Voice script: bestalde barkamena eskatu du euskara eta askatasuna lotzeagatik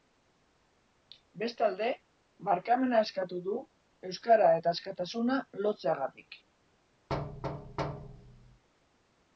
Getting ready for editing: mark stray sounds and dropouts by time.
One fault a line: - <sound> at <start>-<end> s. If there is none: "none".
- thud at 7.1-8.6 s